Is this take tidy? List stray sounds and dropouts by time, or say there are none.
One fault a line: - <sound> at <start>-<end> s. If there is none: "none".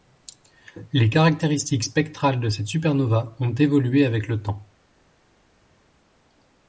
none